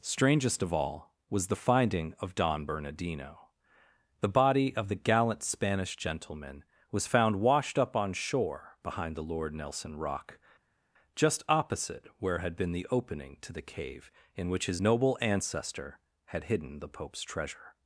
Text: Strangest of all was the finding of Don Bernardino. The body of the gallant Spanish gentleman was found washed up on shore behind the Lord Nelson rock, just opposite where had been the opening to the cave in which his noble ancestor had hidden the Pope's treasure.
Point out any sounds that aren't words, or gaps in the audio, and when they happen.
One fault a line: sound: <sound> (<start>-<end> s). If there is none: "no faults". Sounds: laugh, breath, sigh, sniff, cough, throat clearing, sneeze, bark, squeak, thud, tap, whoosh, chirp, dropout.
no faults